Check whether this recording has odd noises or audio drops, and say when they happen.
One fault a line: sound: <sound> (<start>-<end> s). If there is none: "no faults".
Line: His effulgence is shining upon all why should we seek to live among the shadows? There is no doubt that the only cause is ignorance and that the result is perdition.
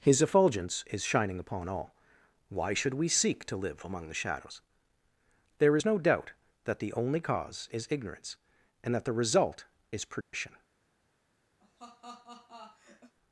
sound: dropout (10.2-10.3 s)
sound: laugh (11.6-13.1 s)